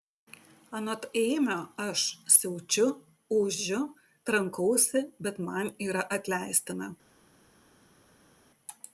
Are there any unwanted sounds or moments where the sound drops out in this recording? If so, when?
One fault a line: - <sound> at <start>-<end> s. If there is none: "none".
none